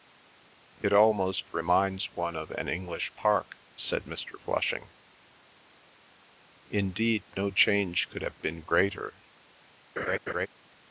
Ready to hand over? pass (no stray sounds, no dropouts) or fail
fail